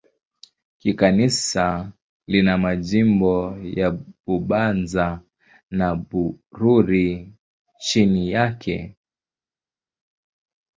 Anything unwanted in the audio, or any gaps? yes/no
no